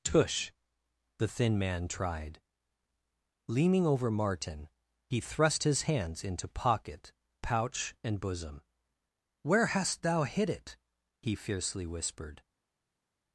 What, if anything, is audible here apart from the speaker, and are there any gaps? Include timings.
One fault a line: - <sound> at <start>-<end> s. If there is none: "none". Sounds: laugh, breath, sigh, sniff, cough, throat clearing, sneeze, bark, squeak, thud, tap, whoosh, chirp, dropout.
none